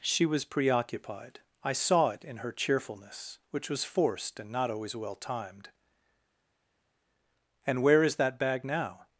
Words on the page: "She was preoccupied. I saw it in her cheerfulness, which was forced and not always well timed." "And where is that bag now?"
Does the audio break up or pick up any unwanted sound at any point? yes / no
no